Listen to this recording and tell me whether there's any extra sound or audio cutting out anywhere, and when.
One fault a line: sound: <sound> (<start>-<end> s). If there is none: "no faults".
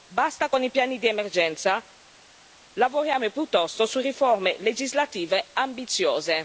no faults